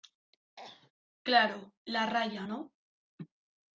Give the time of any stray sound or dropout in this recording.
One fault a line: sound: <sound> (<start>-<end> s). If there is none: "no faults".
sound: cough (0.6-0.9 s)